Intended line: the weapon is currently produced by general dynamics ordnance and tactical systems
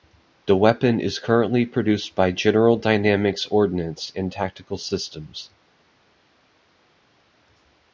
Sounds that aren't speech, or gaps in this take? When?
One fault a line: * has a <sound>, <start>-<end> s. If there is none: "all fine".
all fine